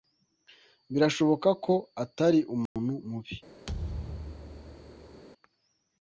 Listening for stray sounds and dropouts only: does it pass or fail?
fail